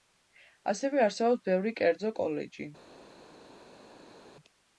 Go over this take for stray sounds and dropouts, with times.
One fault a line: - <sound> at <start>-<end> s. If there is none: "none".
none